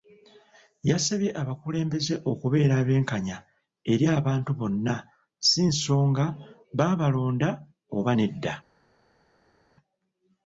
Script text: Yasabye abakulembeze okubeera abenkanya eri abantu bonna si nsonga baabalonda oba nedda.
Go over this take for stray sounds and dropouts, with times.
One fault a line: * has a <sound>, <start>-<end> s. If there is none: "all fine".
all fine